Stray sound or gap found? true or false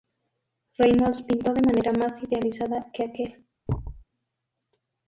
true